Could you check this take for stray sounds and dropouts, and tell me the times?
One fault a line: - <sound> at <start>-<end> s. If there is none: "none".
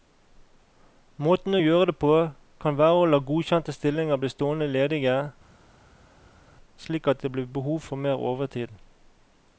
none